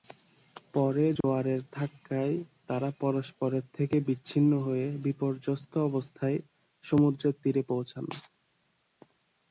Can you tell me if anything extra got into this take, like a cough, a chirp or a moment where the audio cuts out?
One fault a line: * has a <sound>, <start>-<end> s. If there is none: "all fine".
* has a dropout, 1.2-1.2 s